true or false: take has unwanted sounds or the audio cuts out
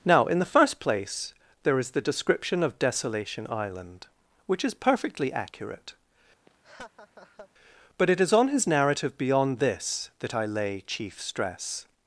true